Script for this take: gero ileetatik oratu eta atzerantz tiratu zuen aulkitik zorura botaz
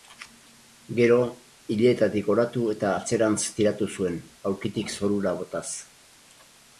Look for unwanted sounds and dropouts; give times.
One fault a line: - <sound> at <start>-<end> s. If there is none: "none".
none